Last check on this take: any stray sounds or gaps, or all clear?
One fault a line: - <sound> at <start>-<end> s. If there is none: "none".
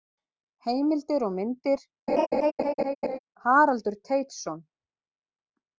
- laugh at 2.1-3.2 s